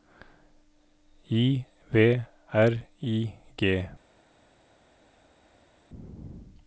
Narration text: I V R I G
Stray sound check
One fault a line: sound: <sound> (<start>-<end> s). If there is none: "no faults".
no faults